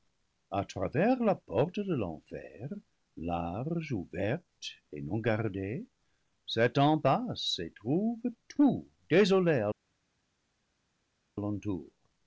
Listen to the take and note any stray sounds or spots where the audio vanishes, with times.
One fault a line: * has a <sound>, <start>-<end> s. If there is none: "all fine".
all fine